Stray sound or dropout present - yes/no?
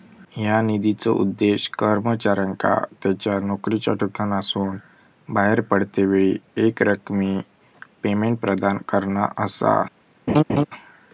yes